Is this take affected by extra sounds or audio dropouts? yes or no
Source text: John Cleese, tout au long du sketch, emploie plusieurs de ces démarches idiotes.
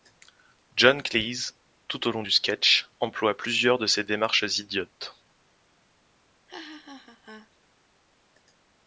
yes